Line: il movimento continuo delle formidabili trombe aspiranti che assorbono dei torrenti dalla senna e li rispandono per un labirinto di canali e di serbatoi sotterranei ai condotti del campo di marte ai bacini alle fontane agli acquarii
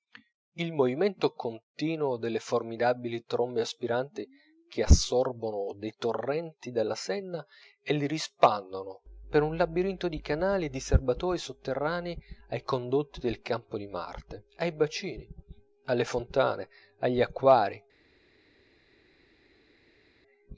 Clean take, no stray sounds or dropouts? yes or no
yes